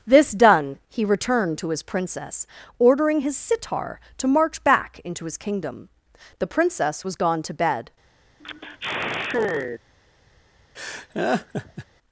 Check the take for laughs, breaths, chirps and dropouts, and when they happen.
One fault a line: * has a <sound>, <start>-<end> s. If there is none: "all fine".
* has a sigh, 8.4-9.8 s
* has a laugh, 10.7-11.8 s